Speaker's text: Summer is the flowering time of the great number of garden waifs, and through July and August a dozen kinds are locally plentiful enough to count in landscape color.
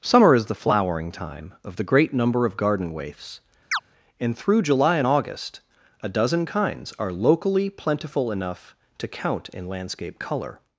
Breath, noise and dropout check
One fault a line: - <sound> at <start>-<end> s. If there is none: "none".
- chirp at 3.7-3.8 s